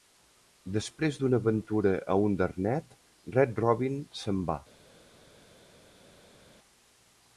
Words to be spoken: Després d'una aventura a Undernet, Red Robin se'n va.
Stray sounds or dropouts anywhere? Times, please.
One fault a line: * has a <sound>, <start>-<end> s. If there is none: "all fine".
all fine